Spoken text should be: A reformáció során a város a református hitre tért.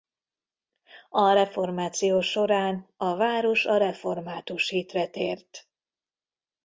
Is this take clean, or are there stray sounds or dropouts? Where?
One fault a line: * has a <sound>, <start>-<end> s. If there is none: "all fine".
all fine